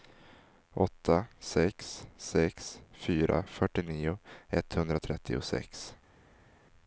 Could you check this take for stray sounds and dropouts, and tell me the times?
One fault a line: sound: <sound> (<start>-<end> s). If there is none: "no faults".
no faults